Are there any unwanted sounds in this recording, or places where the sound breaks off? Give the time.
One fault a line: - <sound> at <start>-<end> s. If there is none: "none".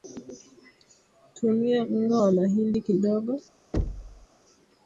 - thud at 3.7-4.3 s